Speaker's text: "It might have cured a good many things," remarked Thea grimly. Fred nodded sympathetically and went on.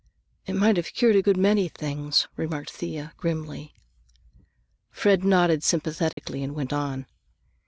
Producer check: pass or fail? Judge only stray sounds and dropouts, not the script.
fail